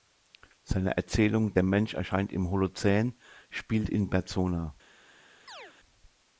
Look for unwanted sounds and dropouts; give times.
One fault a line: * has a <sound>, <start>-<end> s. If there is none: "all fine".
* has a chirp, 5.5-5.7 s